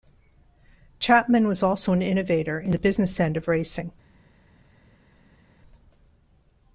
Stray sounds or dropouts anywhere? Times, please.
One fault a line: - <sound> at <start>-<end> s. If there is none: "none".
none